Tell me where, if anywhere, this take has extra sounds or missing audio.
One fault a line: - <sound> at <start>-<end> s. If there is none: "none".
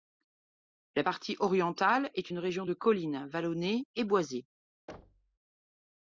- thud at 4.9-5.4 s